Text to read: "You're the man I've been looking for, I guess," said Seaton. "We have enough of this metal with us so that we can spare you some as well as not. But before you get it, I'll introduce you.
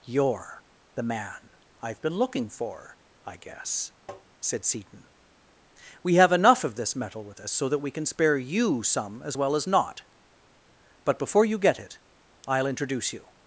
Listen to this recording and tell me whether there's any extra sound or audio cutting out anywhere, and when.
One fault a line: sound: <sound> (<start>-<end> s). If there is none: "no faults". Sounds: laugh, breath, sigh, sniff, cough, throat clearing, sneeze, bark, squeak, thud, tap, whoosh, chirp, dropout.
sound: tap (4.1-4.3 s)